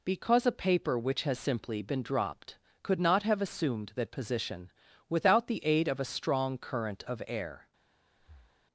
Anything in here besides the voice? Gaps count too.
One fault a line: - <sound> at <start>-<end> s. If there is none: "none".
- breath at 8.2-8.7 s